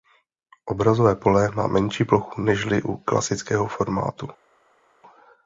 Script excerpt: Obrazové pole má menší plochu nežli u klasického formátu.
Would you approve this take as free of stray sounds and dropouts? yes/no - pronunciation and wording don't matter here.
yes